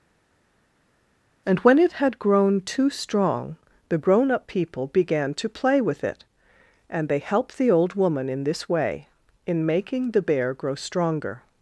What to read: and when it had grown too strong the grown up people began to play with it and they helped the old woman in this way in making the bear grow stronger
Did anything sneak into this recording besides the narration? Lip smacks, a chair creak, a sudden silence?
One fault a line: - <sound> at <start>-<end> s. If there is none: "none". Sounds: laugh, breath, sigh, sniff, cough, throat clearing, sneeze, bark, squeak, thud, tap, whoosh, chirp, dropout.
none